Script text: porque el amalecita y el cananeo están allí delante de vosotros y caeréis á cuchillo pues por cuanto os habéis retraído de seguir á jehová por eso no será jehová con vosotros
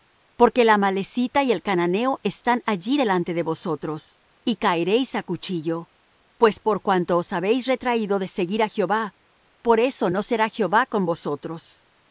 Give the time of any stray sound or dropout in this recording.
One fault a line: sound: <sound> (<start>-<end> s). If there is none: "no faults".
no faults